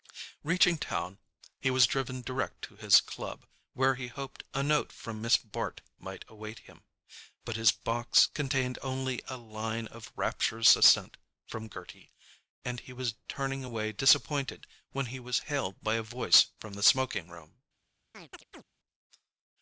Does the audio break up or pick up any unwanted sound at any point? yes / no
yes